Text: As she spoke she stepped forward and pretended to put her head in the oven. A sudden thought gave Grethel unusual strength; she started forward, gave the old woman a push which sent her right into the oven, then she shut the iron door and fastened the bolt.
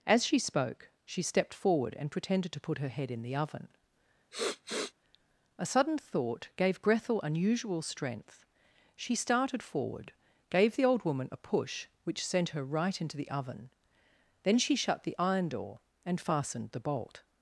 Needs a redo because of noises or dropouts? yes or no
yes